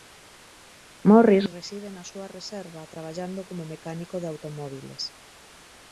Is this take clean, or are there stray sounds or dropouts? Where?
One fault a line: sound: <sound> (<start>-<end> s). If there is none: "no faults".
no faults